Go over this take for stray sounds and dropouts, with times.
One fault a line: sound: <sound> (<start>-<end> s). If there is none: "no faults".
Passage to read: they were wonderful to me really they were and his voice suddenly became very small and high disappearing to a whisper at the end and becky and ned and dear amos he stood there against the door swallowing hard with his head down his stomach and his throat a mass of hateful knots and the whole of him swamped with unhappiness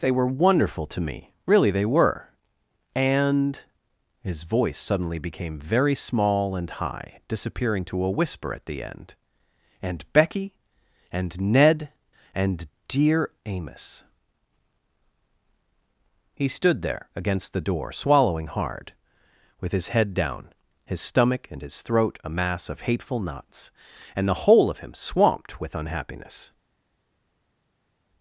no faults